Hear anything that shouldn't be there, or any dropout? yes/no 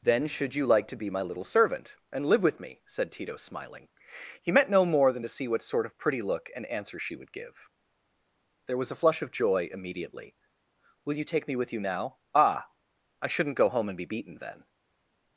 no